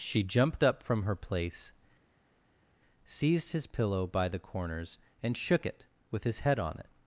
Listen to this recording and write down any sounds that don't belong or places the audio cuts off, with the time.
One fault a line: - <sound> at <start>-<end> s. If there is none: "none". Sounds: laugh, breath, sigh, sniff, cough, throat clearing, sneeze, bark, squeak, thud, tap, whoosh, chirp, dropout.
none